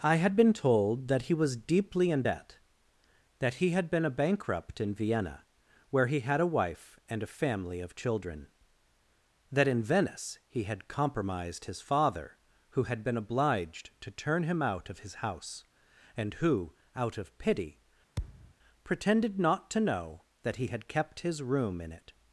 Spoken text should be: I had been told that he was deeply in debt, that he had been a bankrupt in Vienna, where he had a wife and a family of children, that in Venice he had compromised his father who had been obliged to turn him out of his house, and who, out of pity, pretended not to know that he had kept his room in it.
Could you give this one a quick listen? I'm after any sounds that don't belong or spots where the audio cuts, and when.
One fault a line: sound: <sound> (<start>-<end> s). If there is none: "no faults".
sound: thud (18.2-18.5 s)